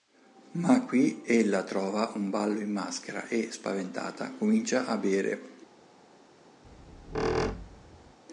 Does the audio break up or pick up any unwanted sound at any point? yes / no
yes